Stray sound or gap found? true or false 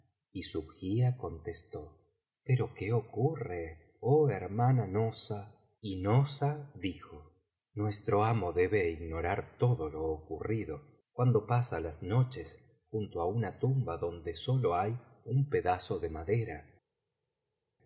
false